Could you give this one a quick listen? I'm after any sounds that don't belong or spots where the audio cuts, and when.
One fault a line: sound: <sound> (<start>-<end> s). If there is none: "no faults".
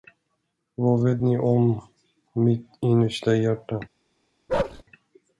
sound: bark (4.5-4.8 s)